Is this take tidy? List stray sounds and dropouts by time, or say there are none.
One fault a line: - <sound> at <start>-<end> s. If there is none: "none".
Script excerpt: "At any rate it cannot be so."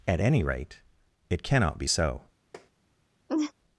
- tap at 2.5-2.7 s
- laugh at 3.3-3.5 s